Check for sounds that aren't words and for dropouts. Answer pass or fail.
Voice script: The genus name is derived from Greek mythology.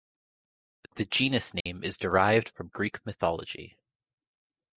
fail